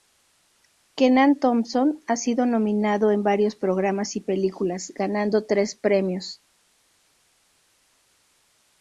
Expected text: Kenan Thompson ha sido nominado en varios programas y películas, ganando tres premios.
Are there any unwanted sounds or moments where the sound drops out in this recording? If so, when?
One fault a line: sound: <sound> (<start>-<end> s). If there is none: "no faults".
no faults